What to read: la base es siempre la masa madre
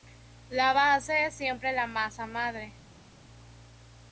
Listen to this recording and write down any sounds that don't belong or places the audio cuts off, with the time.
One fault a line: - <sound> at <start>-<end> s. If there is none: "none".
none